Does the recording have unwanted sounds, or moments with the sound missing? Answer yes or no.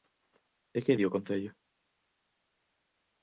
no